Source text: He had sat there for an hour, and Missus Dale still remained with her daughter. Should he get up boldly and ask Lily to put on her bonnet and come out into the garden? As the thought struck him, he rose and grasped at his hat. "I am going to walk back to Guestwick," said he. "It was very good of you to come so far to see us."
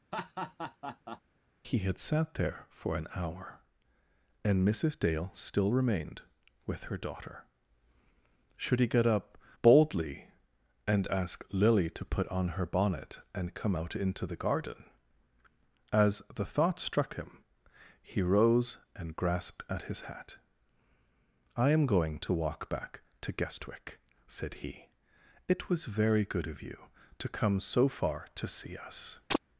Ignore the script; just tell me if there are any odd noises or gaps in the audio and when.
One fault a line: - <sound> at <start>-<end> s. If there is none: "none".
- laugh at 0.1-1.2 s
- chirp at 29.3-29.4 s